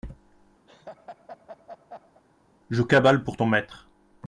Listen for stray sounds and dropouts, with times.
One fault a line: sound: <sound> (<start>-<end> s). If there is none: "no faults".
sound: laugh (0.7-2.2 s)